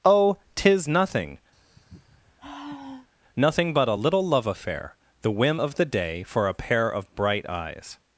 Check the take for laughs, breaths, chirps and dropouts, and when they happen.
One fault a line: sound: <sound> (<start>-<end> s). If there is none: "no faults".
sound: sigh (1.5-3.1 s)